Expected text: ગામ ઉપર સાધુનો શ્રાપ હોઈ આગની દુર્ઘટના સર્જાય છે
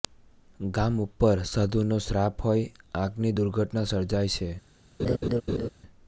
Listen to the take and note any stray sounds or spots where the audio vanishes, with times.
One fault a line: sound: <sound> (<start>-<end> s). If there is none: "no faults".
sound: laugh (5.0-5.7 s)